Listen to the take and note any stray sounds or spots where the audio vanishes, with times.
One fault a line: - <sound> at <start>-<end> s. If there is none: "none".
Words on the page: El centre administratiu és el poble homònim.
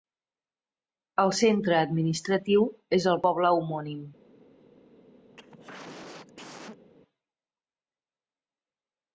- cough at 5.3-6.9 s